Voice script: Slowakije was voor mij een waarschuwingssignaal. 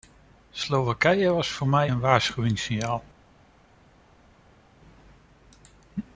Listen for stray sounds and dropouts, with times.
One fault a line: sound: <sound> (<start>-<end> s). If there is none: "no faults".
no faults